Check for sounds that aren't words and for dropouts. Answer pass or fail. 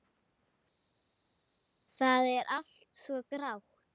pass